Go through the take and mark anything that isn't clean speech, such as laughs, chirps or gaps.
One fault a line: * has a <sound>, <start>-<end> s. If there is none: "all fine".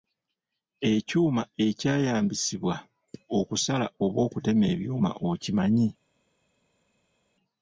all fine